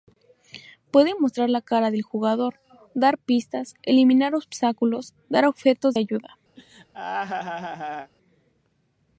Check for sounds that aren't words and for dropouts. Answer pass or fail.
fail